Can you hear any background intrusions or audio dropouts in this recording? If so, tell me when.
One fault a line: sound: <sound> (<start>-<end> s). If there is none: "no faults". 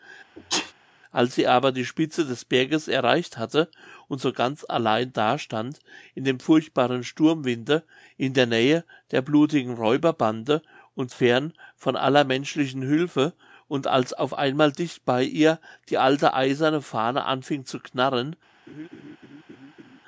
sound: sneeze (0.4-0.7 s)
sound: laugh (18.7-20.0 s)